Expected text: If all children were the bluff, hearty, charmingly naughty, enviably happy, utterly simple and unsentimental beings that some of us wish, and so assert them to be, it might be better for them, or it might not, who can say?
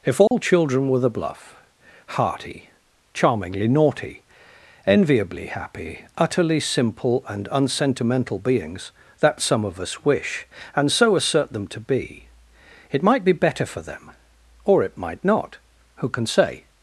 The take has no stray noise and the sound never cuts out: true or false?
false